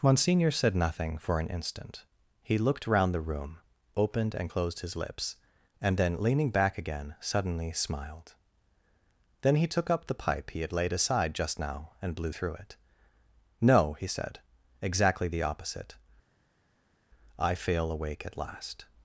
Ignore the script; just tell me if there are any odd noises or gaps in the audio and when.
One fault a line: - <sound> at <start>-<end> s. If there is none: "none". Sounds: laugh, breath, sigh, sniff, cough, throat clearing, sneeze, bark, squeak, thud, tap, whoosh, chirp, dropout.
none